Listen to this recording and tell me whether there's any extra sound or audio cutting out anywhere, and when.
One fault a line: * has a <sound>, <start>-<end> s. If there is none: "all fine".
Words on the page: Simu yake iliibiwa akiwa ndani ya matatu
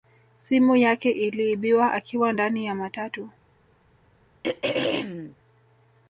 * has a throat clearing, 4.4-5.4 s